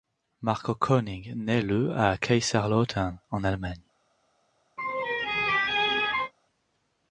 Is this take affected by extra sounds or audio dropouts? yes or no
yes